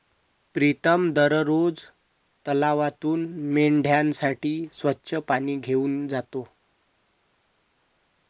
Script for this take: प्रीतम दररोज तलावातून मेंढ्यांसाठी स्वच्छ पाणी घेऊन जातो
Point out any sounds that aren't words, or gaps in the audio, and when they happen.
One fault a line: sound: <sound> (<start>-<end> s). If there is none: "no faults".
no faults